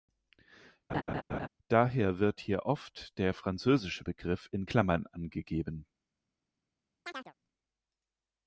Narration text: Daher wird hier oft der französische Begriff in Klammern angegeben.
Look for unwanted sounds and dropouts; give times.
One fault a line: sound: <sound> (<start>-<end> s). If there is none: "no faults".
sound: laugh (0.9-1.5 s)
sound: chirp (7.0-7.3 s)